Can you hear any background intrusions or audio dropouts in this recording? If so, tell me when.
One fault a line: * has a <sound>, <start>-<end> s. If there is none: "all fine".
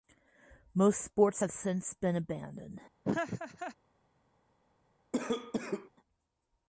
* has a laugh, 3.0-3.8 s
* has a cough, 5.1-5.9 s